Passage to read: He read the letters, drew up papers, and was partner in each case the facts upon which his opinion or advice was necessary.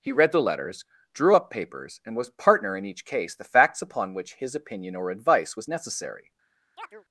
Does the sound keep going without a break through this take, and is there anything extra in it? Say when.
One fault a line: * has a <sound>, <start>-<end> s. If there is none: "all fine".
* has a chirp, 6.8-7.0 s